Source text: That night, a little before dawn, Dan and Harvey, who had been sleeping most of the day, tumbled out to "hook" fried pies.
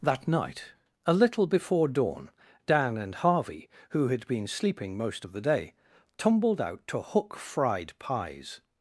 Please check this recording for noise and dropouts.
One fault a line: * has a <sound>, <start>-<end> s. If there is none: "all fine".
all fine